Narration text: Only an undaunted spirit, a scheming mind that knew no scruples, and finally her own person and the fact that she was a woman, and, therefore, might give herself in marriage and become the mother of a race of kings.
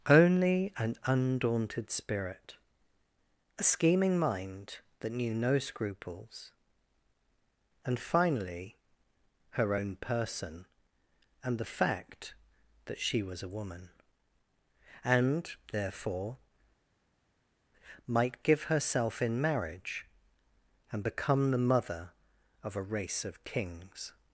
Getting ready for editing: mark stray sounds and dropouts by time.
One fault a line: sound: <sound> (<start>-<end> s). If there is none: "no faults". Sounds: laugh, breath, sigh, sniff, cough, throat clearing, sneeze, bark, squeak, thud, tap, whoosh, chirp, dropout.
no faults